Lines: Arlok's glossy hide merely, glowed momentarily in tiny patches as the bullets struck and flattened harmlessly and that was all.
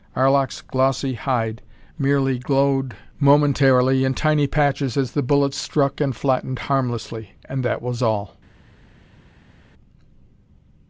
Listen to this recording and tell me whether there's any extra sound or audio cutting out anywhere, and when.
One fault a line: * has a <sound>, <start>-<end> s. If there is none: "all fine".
all fine